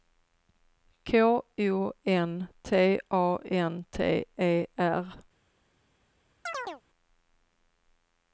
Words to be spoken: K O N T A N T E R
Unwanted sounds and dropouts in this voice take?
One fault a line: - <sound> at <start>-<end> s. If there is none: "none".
- chirp at 6.5-6.8 s